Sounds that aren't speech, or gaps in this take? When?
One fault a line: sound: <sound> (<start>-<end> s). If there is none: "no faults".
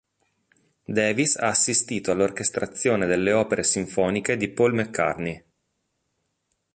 no faults